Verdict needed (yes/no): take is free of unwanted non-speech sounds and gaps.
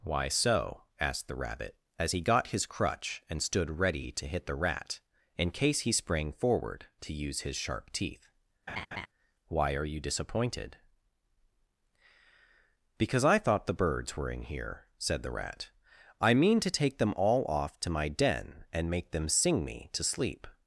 no